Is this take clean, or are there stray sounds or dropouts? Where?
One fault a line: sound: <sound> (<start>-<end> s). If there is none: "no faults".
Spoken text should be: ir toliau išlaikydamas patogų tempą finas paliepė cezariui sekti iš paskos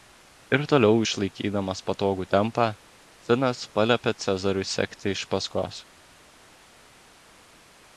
no faults